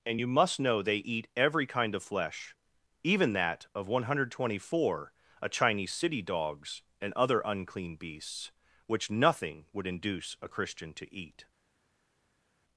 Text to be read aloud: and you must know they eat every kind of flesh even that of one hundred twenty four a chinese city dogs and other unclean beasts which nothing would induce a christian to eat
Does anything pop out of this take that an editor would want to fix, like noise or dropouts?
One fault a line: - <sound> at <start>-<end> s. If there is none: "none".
none